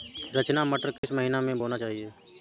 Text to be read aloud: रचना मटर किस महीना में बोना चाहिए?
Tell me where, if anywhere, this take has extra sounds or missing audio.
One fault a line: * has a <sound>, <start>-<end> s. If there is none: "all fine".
* has a dropout, 1.0-1.0 s